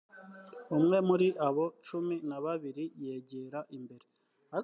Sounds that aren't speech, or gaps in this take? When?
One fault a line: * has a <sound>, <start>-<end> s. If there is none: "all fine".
all fine